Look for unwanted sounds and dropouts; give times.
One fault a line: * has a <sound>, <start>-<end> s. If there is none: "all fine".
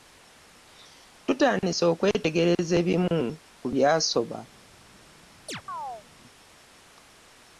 * has a chirp, 5.5-6.1 s